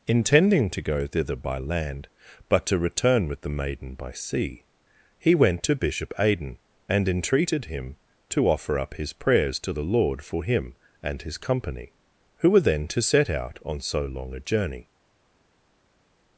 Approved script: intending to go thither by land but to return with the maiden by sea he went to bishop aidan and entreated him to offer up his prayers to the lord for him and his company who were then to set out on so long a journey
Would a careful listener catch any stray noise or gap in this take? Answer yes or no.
no